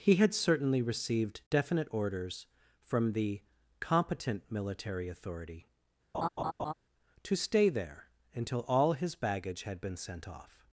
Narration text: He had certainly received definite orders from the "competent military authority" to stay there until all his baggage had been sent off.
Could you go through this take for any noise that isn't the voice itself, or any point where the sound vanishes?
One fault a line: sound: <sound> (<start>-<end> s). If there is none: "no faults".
sound: laugh (6.1-6.7 s)